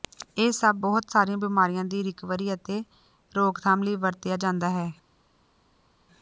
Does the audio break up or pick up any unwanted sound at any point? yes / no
no